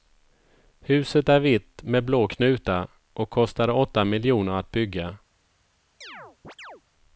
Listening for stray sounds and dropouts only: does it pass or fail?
fail